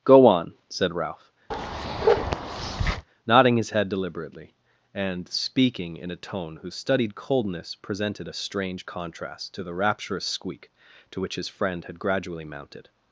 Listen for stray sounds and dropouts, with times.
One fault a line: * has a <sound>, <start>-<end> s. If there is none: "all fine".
* has a bark, 1.5-3.1 s